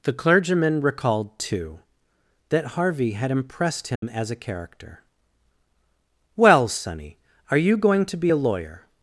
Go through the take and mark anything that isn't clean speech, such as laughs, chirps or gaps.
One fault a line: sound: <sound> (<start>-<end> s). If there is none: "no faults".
sound: dropout (4.0-4.0 s)